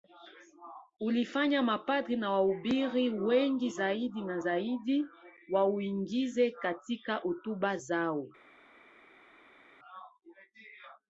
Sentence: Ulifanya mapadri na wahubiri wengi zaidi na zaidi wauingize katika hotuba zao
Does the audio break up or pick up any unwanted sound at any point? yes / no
no